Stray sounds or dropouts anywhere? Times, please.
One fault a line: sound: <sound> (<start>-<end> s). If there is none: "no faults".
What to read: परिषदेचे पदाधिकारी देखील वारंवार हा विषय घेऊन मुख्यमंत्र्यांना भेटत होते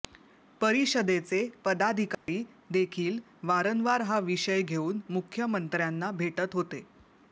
sound: dropout (2.1-2.3 s)